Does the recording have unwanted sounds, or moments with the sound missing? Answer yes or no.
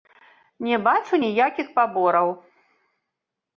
no